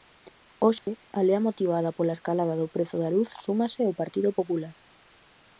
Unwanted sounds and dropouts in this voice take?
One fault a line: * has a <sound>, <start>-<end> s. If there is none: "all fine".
* has a dropout, 0.8-0.9 s